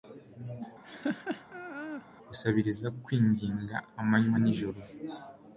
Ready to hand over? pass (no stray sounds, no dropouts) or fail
fail